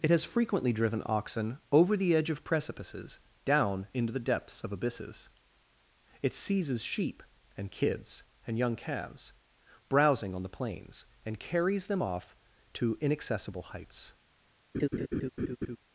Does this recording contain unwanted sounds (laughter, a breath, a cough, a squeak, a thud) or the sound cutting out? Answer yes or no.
yes